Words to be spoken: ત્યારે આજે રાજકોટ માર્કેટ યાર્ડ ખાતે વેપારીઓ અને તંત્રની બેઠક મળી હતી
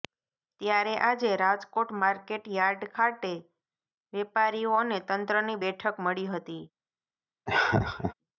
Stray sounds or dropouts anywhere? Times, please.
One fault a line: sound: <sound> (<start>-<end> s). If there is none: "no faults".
sound: laugh (7.5-8.1 s)